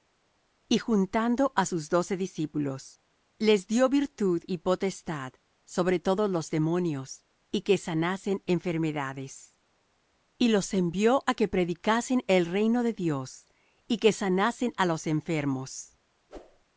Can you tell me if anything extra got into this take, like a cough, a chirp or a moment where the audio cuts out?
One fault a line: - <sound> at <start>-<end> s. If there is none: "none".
- whoosh at 16.3-16.6 s